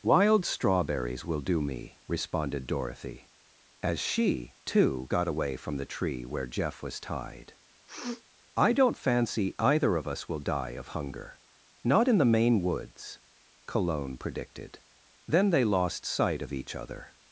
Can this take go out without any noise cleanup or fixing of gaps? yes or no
no